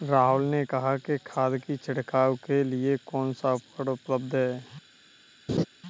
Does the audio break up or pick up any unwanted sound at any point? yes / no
yes